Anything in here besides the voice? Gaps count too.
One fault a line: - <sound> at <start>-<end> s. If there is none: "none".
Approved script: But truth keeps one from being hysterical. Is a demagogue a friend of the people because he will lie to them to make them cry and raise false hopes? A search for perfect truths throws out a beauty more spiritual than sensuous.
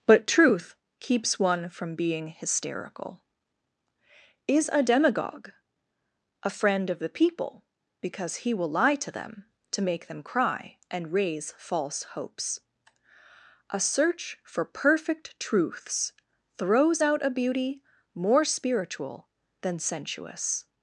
none